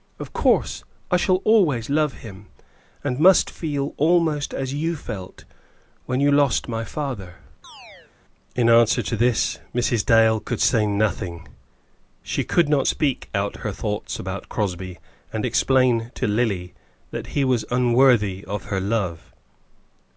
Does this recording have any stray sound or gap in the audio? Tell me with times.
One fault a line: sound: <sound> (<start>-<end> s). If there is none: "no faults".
sound: chirp (7.6-8.1 s)